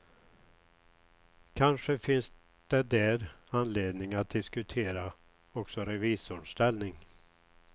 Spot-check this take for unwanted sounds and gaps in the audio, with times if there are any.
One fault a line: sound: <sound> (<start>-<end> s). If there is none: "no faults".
no faults